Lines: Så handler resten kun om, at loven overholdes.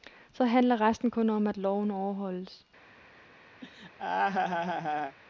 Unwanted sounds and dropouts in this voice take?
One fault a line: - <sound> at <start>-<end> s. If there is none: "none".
- laugh at 3.6-5.2 s